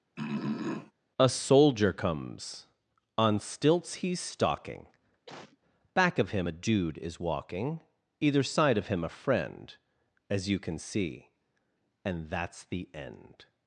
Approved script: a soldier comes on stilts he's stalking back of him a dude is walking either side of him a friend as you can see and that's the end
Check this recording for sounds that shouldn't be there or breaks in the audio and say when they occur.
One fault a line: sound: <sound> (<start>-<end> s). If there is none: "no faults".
sound: throat clearing (0.2-0.9 s)
sound: cough (5.3-5.6 s)